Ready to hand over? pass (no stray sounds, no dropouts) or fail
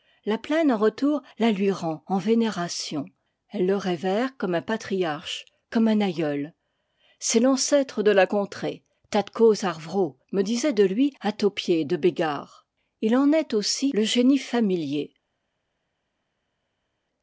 pass